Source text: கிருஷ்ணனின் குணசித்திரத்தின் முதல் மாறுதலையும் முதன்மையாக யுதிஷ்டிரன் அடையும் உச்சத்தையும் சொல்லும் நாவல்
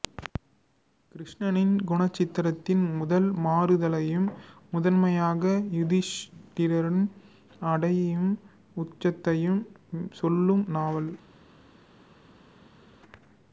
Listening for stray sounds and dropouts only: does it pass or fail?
pass